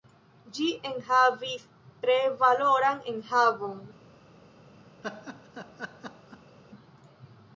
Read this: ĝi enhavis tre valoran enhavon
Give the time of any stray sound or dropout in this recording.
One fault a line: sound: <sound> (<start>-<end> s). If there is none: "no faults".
sound: laugh (5.0-6.6 s)